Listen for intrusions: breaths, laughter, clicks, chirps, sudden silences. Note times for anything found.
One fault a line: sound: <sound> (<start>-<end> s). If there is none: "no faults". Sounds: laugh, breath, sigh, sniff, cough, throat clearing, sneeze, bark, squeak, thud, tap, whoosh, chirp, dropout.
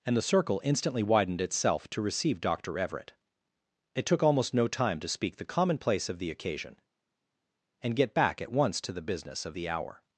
no faults